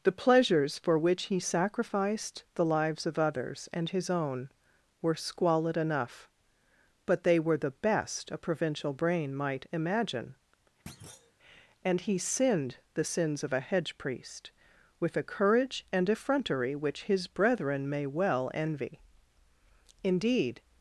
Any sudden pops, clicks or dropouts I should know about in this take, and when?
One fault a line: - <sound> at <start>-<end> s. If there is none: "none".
- thud at 10.9-11.3 s